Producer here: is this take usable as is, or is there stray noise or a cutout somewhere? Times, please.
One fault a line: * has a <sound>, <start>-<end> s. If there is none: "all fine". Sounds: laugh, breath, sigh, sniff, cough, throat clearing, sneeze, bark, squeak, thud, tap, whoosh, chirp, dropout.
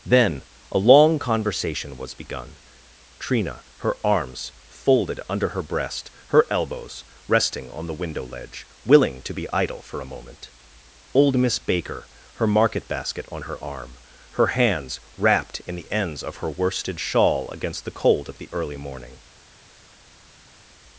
all fine